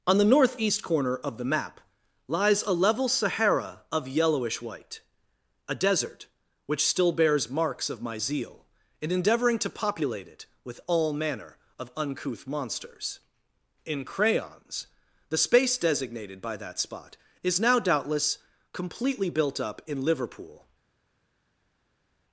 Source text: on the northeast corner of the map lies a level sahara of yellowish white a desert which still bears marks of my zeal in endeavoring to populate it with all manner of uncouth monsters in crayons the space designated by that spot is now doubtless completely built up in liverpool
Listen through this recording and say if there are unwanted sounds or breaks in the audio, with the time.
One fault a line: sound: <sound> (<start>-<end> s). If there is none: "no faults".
no faults